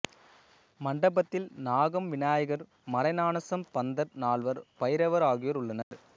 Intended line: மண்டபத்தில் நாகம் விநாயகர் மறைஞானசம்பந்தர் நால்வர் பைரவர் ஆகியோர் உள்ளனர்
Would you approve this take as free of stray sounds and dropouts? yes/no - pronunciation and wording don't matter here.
no